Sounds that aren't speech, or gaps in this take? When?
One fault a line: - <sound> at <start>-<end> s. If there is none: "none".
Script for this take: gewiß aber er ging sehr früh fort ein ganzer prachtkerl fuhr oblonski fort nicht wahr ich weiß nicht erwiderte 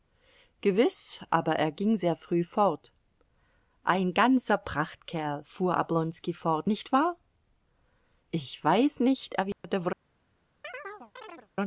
- dropout at 9.5-9.6 s
- chirp at 10.6-11.5 s